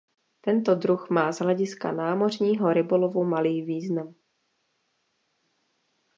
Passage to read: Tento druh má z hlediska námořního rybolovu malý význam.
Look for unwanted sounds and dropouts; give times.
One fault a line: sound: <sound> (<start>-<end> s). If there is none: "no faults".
no faults